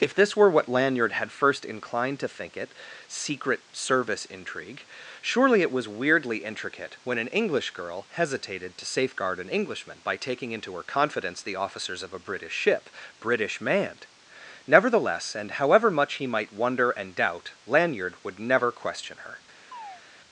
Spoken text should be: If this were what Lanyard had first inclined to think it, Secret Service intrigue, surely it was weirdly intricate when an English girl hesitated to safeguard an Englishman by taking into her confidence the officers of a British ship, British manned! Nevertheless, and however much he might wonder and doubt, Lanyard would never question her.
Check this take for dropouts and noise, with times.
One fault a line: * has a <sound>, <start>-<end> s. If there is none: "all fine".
* has a chirp, 19.7-20.0 s